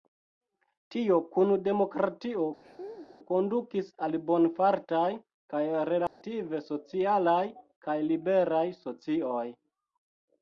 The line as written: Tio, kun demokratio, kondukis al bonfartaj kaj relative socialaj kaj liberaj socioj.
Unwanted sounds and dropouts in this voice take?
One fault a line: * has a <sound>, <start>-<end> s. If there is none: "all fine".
* has a laugh, 2.6-3.2 s
* has a dropout, 6.1-6.2 s